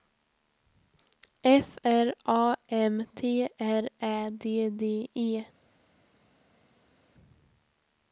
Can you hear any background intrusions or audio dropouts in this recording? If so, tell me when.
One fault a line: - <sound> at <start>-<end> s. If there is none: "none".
none